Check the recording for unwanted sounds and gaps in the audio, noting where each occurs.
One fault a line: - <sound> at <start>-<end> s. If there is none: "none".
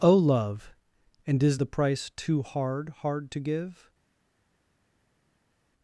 none